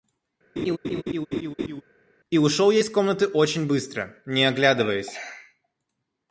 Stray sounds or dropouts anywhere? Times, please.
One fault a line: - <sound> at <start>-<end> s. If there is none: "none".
- laugh at 0.6-1.8 s